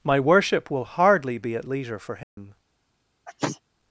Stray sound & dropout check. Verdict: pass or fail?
fail